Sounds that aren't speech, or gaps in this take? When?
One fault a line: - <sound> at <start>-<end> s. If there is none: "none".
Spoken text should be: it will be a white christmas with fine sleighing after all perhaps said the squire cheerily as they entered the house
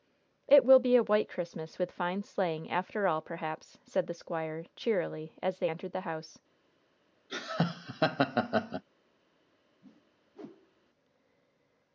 - laugh at 7.3-8.8 s
- whoosh at 9.8-10.9 s